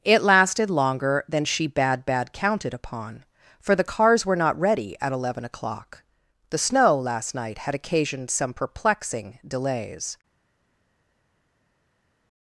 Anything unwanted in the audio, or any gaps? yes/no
no